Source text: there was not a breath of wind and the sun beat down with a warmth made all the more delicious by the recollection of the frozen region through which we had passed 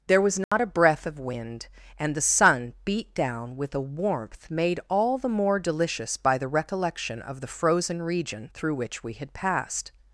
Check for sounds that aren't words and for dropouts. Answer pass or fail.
fail